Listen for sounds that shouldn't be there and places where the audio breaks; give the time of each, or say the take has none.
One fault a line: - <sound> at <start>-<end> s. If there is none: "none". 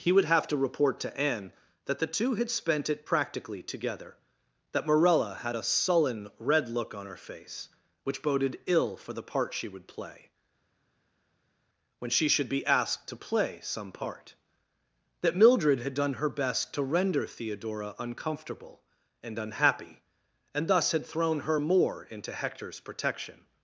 none